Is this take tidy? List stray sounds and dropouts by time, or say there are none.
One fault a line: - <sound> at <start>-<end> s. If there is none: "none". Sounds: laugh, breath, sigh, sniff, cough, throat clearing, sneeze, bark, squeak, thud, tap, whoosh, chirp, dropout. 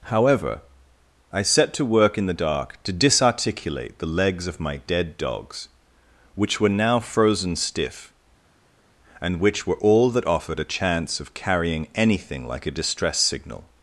none